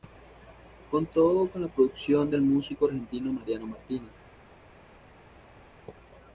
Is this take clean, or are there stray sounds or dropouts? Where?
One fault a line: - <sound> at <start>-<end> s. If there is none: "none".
none